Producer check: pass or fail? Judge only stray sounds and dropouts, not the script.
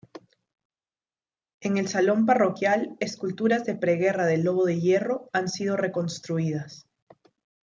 pass